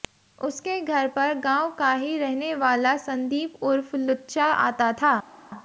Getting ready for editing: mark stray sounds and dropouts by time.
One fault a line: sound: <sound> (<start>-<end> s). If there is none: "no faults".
no faults